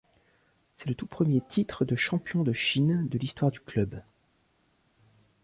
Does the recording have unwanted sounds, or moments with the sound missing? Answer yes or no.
no